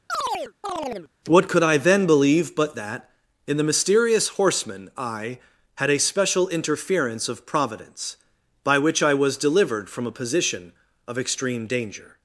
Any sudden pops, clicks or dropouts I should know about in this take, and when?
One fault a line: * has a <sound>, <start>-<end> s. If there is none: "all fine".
* has a chirp, 0.1-1.1 s